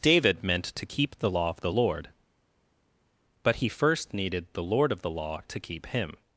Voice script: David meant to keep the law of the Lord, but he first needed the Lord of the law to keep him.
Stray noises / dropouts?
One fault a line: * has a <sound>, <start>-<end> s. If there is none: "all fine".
all fine